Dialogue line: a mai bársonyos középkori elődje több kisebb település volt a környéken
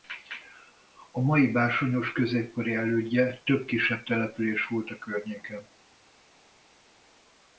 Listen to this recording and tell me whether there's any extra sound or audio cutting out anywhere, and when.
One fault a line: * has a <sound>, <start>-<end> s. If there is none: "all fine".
all fine